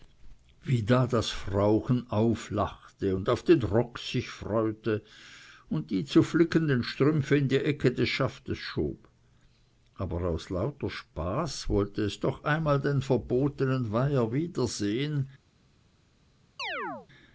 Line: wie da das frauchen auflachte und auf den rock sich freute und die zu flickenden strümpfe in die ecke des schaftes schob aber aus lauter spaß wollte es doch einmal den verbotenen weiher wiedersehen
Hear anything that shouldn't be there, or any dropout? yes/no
yes